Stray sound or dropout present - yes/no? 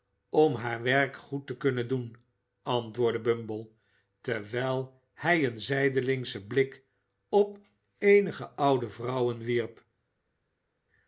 no